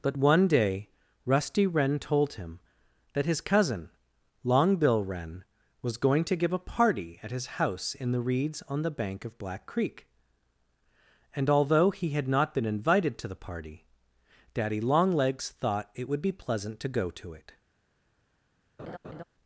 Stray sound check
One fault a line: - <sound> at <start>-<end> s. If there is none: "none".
- laugh at 18.8-19.2 s